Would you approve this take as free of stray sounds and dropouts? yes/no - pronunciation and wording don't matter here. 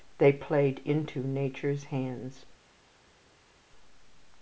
yes